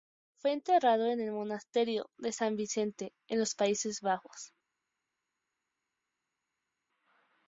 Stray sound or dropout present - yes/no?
no